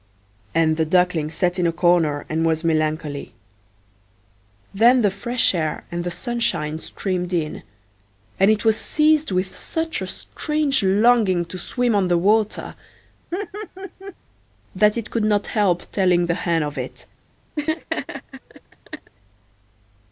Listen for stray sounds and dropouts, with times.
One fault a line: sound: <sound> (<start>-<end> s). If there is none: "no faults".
sound: laugh (13.3-14.1 s)
sound: laugh (17.6-19.1 s)